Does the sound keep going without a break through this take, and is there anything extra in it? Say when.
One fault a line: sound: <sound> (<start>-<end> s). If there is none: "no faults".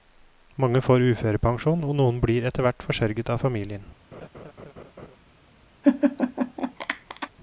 sound: laugh (4.1-5.2 s)
sound: laugh (5.8-7.3 s)